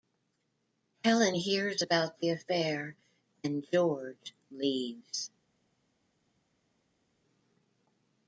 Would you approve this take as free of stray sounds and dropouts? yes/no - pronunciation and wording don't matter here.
yes